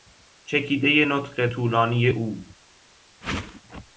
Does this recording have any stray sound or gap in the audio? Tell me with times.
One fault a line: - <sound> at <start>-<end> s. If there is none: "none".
- whoosh at 3.2-3.6 s